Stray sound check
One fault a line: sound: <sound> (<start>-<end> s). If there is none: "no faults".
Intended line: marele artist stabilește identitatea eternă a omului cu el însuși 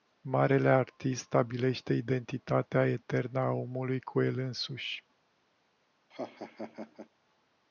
sound: laugh (6.1-7.1 s)